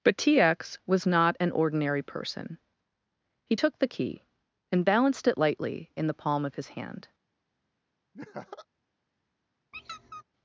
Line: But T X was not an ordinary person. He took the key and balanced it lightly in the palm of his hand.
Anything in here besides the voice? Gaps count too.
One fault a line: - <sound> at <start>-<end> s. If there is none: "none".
- laugh at 8.1-8.7 s
- squeak at 9.7-10.2 s